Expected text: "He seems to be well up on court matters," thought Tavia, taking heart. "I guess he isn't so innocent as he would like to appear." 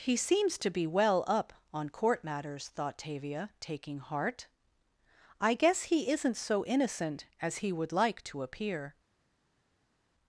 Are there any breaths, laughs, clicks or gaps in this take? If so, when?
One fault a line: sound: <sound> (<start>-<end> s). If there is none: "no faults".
no faults